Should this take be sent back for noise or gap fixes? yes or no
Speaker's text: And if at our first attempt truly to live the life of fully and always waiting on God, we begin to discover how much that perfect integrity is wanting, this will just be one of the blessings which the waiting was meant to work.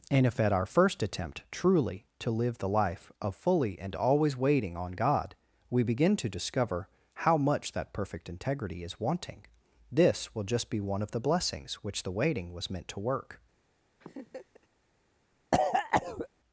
yes